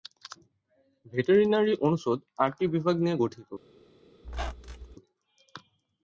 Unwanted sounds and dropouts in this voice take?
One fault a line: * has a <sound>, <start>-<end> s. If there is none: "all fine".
* has a squeak, 4.2-5.0 s